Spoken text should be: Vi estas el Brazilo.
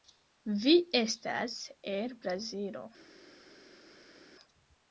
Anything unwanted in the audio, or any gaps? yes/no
no